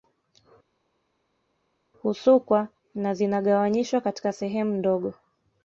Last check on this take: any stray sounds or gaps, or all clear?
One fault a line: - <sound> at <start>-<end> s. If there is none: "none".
none